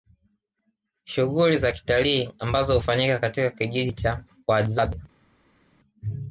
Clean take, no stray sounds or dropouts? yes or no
yes